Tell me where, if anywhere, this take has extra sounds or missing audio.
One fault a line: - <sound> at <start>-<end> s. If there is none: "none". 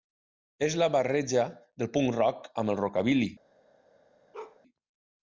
- bark at 4.3-4.6 s